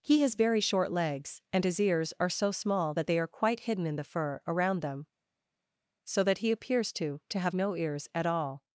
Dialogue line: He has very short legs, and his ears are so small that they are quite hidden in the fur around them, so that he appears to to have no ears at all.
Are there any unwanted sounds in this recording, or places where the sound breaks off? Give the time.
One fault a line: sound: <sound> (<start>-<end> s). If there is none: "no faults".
no faults